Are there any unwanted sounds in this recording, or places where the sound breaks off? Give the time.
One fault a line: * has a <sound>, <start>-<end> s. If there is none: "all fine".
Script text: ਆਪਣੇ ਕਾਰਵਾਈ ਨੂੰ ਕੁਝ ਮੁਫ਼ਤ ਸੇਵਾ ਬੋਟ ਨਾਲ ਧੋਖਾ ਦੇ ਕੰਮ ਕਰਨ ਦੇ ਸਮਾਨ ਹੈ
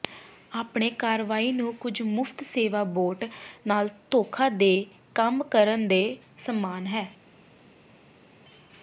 all fine